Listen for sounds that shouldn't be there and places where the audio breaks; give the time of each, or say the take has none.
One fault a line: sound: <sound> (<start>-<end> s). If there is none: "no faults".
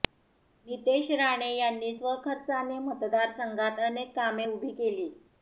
no faults